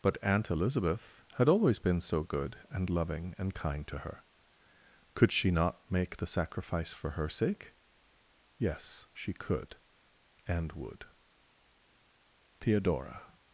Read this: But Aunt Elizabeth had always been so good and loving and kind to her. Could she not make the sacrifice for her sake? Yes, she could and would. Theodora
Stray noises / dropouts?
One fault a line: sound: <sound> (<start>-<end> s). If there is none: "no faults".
no faults